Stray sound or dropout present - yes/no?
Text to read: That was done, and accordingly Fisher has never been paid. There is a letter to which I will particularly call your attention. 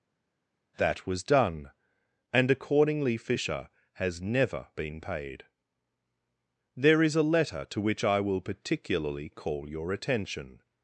no